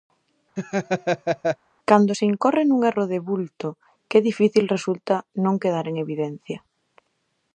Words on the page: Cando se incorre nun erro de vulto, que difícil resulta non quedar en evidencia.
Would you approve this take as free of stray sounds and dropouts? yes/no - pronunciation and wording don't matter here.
no